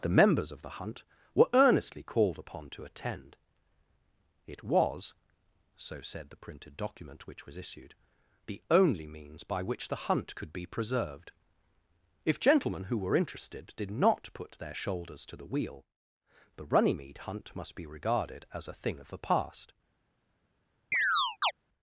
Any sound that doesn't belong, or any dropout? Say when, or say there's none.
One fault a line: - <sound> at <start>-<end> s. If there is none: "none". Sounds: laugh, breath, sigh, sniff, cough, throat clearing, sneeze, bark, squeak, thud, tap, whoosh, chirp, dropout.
- chirp at 20.9-21.5 s